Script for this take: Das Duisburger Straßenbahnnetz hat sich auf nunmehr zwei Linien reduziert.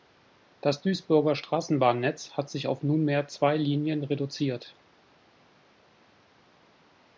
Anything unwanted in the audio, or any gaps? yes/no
no